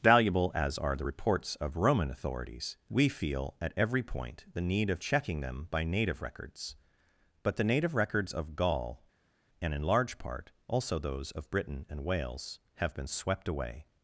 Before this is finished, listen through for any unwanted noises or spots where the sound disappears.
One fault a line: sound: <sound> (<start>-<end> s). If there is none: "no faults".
no faults